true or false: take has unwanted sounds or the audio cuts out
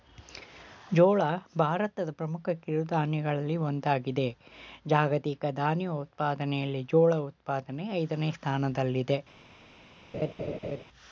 true